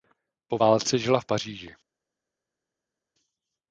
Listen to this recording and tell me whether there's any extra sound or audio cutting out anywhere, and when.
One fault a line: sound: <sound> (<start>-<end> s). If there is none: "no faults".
no faults